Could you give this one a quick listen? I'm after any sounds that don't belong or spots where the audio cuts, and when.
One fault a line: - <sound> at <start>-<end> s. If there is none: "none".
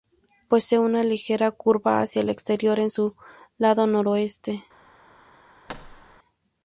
- thud at 5.7-6.2 s